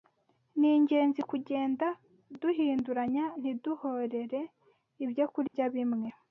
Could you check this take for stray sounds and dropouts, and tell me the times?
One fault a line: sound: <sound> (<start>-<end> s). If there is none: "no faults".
sound: dropout (5.5-5.5 s)